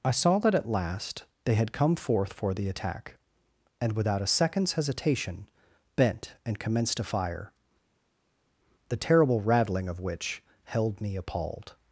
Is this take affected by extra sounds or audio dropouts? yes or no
no